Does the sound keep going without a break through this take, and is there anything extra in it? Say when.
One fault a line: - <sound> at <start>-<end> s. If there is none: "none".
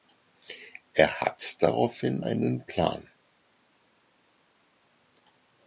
none